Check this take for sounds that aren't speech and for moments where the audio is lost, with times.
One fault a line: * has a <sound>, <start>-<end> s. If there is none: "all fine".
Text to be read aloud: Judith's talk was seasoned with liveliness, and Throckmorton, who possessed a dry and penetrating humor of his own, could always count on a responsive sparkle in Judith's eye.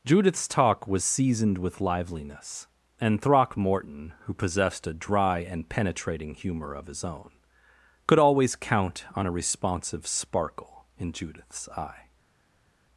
all fine